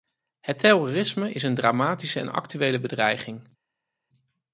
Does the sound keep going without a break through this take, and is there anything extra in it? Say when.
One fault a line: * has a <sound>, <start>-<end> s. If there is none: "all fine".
all fine